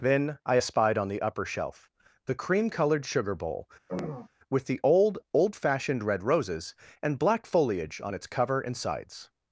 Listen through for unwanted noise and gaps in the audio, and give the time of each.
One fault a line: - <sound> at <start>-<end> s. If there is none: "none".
- throat clearing at 3.9-4.3 s